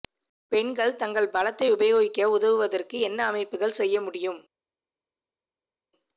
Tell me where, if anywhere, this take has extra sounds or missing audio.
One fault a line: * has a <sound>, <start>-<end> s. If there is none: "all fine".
all fine